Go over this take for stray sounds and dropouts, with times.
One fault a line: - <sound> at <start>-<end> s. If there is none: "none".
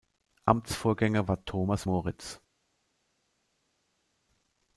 none